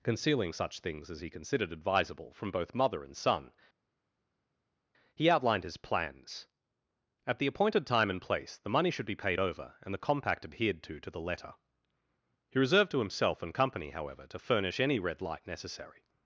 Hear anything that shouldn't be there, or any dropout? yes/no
no